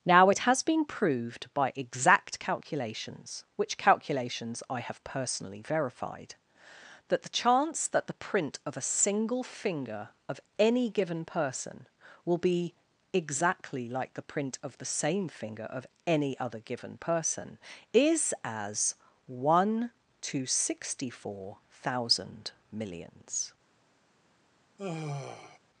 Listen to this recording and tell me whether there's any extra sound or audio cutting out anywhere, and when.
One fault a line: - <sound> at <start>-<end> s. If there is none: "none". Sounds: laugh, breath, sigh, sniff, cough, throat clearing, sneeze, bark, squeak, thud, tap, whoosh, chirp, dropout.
- sigh at 24.8-25.6 s